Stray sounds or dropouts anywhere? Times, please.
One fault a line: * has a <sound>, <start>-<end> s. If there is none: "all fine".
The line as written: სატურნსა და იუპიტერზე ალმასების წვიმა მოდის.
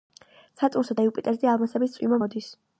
all fine